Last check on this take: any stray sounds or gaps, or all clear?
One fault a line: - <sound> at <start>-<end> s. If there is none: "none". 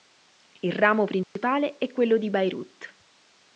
- dropout at 1.2-1.4 s